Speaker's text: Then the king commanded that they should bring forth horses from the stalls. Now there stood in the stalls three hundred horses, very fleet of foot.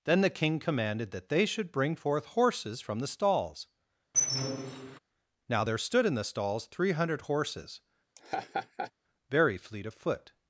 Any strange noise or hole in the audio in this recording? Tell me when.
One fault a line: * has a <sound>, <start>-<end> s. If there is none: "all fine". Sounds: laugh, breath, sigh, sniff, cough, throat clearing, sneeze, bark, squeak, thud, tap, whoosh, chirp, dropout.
* has a squeak, 4.1-5.0 s
* has a laugh, 8.2-8.9 s